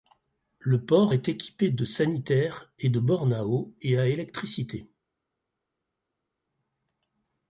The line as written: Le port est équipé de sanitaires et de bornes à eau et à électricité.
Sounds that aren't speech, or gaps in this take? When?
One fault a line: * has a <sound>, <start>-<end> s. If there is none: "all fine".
all fine